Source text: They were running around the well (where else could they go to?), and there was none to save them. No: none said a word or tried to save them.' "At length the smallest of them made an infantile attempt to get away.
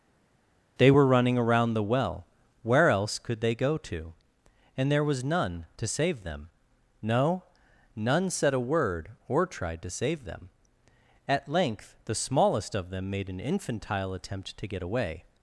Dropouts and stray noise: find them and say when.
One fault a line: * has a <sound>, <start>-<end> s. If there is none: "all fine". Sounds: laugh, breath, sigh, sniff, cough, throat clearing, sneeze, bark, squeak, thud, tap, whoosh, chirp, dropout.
all fine